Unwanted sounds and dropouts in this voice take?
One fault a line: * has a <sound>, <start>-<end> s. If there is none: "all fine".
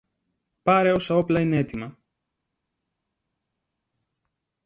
all fine